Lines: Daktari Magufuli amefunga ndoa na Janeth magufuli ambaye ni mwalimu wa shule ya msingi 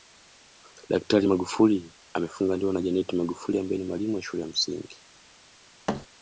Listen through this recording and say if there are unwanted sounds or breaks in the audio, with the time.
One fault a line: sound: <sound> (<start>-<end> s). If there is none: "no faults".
sound: thud (5.9-6.1 s)